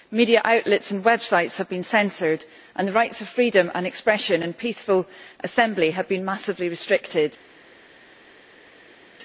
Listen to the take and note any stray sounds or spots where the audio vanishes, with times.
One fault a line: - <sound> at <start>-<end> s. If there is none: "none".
none